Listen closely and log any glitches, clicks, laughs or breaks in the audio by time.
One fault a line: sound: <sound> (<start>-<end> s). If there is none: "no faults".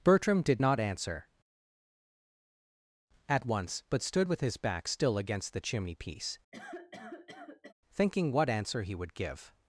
sound: cough (6.5-7.7 s)